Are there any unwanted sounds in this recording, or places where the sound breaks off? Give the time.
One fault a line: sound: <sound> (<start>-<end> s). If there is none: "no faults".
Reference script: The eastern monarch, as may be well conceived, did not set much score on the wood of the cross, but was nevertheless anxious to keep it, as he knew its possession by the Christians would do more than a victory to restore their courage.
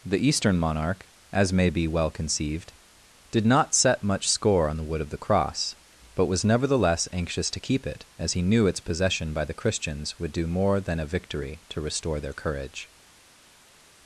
no faults